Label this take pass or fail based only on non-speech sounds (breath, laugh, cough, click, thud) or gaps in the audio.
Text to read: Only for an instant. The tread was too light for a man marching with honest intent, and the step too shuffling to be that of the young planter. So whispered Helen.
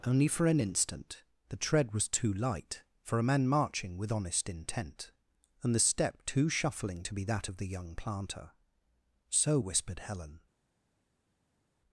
pass